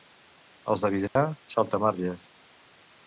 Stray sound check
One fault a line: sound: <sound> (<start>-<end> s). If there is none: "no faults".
sound: dropout (1.1-1.2 s)